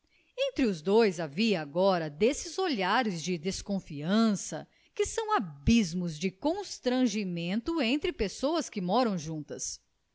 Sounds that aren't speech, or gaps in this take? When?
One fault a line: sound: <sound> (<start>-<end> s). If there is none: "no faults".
no faults